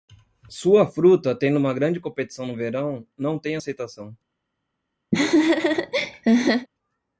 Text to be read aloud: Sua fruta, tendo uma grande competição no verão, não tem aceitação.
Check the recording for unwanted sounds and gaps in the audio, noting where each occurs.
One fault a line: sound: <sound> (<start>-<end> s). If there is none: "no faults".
sound: laugh (5.1-6.7 s)